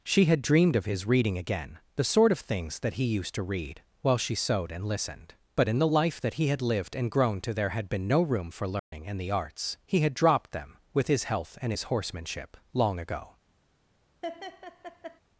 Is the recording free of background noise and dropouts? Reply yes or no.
no